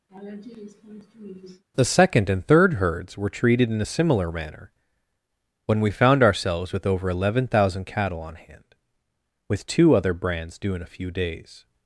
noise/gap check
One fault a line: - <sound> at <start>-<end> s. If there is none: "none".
- laugh at 0.1-1.6 s